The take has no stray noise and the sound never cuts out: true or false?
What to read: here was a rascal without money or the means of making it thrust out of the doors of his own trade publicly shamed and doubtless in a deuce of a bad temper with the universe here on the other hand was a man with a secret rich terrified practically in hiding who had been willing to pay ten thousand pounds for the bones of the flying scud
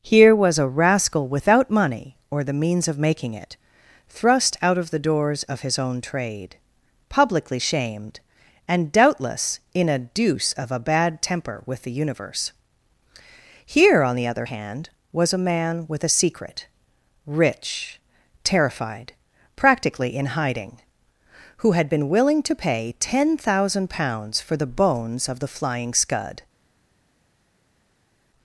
true